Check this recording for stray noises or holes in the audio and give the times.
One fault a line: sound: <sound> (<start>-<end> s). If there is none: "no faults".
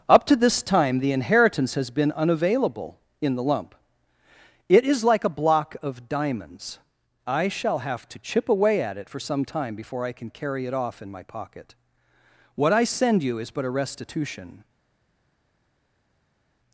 no faults